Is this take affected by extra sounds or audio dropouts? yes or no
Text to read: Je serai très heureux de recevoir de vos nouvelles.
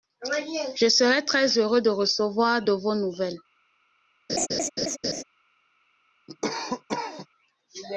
yes